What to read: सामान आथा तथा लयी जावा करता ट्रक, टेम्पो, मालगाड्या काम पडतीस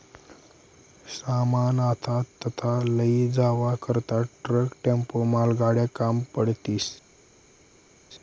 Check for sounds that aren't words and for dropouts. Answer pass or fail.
pass